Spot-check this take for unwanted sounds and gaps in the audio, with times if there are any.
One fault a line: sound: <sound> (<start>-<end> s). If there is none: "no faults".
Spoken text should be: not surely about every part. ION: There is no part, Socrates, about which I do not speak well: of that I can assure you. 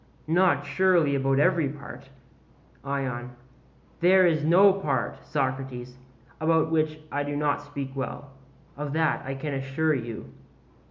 no faults